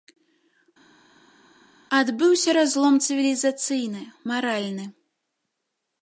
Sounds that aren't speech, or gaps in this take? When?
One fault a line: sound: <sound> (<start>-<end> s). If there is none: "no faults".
no faults